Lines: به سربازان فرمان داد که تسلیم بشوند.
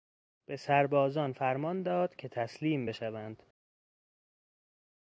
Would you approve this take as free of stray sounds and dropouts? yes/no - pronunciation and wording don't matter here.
yes